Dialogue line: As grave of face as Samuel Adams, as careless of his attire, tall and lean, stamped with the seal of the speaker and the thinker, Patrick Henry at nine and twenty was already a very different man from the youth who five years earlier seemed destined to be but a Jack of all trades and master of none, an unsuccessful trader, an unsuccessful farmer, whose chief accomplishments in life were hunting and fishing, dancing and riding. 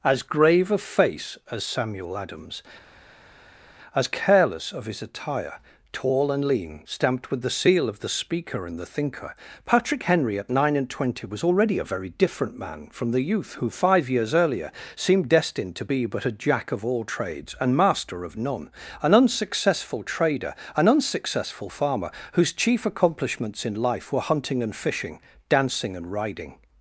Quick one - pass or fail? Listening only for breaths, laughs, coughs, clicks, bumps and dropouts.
pass